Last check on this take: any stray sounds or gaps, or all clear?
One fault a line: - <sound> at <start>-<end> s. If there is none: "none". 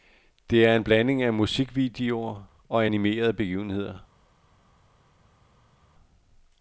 none